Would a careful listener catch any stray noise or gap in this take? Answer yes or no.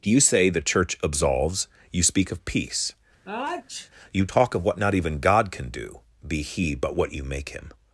yes